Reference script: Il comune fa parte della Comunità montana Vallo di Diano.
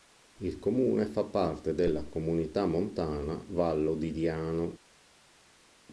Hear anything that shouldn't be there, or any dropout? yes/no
no